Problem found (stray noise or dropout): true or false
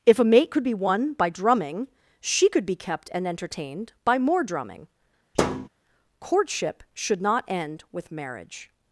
true